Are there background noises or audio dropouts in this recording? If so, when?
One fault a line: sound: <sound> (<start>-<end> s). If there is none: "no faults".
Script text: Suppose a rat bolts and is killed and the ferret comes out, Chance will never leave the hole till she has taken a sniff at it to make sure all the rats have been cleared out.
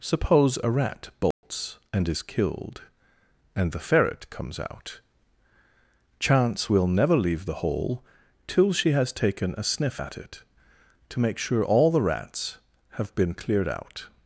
sound: dropout (1.3-1.4 s)